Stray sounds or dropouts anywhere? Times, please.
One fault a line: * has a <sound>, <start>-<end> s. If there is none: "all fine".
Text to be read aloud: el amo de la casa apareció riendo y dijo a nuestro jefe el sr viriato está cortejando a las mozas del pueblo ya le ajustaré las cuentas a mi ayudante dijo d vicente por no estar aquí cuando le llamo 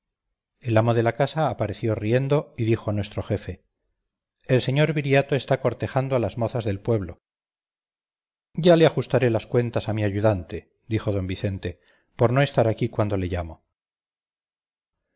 all fine